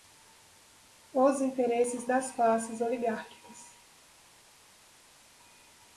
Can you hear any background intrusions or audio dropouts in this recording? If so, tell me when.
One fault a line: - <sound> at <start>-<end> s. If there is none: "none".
none